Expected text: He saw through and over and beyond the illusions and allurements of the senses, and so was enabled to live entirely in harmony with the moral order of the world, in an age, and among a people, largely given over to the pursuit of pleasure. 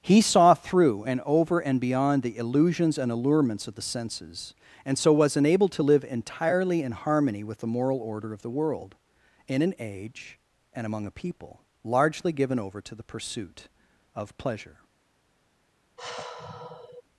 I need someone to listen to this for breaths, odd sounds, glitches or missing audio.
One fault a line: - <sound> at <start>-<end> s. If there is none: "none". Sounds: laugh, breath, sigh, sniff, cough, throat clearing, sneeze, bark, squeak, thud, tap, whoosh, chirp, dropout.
- sigh at 16.0-17.0 s